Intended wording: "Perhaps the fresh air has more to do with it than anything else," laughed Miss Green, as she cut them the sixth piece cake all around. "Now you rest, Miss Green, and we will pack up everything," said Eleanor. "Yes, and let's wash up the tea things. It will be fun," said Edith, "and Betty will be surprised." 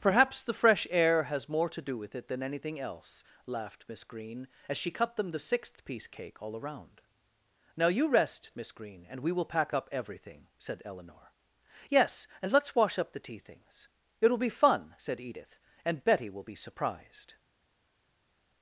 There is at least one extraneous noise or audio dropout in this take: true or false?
false